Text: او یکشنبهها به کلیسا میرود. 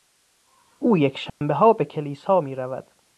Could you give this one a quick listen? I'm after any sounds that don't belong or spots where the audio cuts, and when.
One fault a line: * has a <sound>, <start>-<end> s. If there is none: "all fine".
* has a dropout, 1.3-1.4 s